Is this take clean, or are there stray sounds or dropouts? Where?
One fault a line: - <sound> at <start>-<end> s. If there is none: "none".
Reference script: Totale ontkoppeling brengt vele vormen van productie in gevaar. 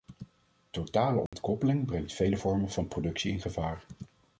- dropout at 1.3-1.3 s